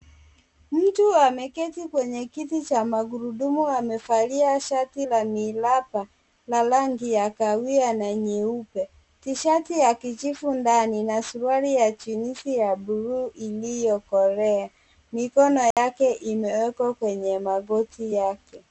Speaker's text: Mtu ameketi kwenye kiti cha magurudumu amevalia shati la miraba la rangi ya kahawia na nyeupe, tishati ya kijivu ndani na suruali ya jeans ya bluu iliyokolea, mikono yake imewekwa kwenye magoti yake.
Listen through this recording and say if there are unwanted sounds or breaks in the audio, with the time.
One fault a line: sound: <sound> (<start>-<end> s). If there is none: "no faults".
sound: dropout (15.7-15.8 s)